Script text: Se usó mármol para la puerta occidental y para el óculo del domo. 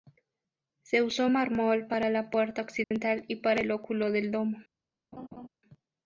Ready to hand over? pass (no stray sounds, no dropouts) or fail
fail